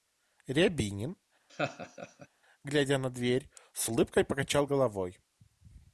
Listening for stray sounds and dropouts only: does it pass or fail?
fail